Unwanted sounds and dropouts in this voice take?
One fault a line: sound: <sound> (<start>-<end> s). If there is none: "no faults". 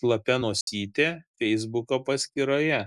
sound: dropout (0.6-0.7 s)